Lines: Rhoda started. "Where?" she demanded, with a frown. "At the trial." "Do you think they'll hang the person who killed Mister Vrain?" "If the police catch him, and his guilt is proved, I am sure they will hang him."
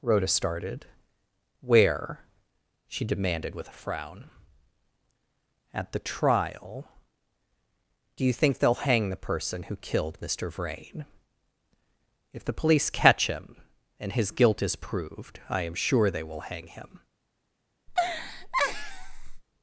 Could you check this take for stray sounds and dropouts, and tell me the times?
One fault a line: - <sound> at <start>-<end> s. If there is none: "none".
- laugh at 17.9-19.4 s